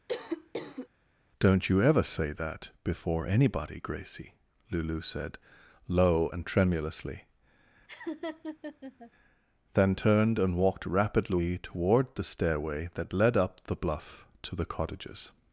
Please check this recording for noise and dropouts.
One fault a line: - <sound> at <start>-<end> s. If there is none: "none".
- cough at 0.1-0.9 s
- laugh at 7.9-9.1 s